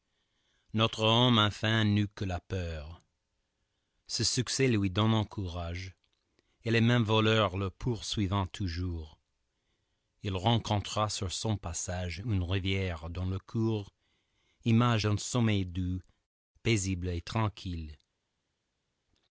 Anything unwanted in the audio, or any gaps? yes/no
no